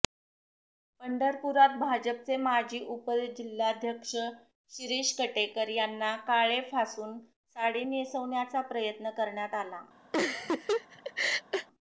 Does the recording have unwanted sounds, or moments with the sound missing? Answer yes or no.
yes